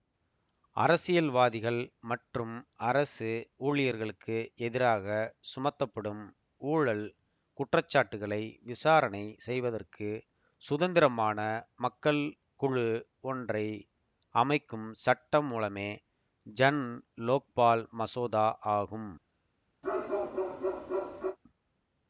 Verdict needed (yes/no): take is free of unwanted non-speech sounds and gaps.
no